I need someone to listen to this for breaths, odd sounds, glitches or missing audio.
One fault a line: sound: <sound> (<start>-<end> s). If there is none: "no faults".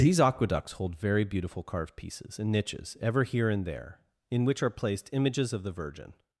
no faults